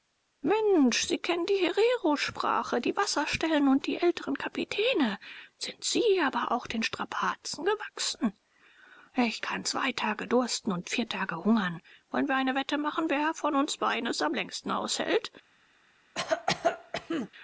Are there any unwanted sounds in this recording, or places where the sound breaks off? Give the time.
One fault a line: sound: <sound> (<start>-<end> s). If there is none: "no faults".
sound: cough (16.1-17.3 s)